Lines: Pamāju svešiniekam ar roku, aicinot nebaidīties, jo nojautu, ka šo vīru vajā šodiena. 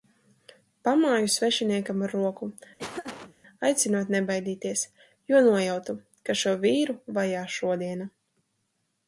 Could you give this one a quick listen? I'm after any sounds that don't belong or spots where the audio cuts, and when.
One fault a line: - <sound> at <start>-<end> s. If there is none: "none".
- laugh at 2.8-3.4 s